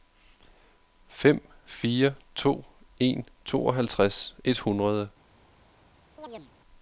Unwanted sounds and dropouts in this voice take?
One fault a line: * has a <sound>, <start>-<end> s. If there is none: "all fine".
* has a chirp, 6.2-6.5 s